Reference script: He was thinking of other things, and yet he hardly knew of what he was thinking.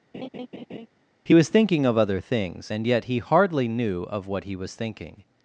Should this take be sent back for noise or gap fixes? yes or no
yes